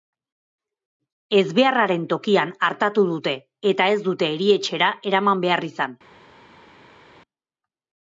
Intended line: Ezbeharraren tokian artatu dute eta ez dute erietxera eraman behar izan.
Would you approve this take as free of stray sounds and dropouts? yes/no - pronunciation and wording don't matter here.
yes